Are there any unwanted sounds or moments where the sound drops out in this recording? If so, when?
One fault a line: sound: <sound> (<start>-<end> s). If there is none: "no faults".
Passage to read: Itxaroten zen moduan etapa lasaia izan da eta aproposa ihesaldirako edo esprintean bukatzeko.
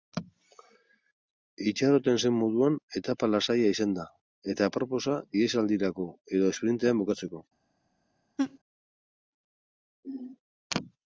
sound: laugh (8.4-8.6 s)